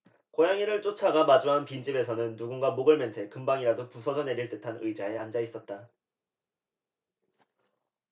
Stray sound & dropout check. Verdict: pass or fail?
pass